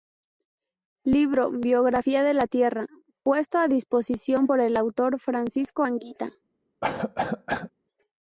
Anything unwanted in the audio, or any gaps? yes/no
yes